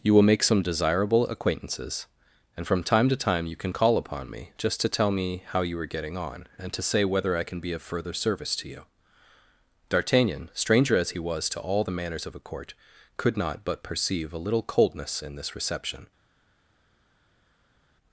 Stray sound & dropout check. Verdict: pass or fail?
pass